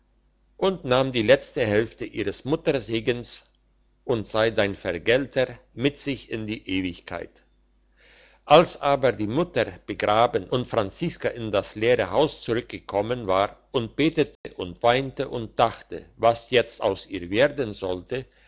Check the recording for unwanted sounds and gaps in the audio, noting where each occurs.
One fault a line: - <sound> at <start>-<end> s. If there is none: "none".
- dropout at 14.4-14.4 s